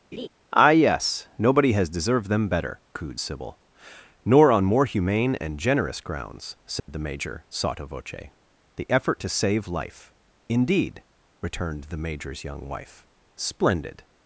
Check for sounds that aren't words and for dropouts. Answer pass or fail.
fail